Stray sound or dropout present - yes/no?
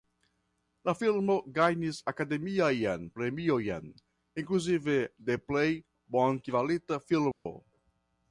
yes